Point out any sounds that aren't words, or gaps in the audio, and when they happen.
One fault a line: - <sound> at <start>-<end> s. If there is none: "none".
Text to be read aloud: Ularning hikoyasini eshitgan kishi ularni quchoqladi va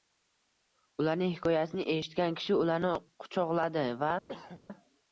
- throat clearing at 4.3-4.6 s